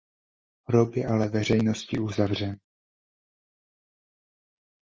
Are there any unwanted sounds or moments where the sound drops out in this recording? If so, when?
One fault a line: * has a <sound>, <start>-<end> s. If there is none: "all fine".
all fine